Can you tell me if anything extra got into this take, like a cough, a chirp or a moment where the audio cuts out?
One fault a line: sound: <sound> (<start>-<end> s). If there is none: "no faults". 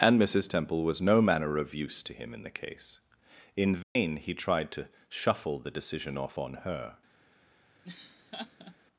sound: dropout (3.8-4.0 s)
sound: laugh (7.8-8.8 s)